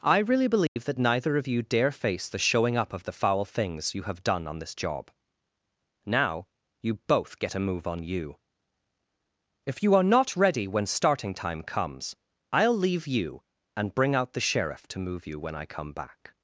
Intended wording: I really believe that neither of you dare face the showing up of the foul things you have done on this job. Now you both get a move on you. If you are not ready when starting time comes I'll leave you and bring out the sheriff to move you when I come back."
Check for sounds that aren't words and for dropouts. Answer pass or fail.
fail